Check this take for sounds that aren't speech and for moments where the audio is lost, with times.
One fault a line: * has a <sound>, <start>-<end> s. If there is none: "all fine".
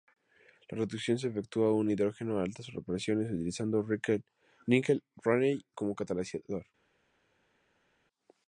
all fine